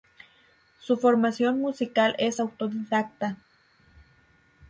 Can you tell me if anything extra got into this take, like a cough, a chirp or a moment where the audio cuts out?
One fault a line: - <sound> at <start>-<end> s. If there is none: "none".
none